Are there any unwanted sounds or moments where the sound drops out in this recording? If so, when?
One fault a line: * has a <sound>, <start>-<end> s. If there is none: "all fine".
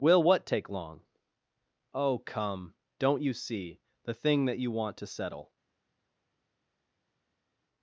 all fine